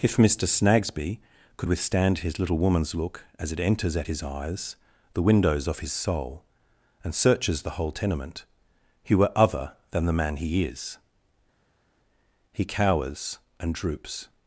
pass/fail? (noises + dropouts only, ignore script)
pass